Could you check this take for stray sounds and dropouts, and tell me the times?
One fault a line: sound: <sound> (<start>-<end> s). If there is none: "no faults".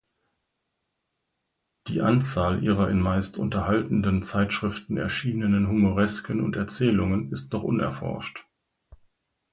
no faults